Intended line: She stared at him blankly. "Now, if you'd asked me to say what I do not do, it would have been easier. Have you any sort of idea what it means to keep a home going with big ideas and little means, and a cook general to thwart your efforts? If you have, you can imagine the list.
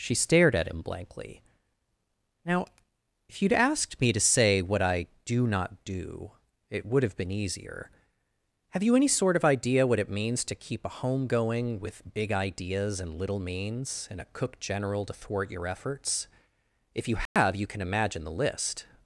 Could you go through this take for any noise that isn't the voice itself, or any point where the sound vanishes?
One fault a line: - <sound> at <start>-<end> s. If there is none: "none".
- dropout at 17.3-17.4 s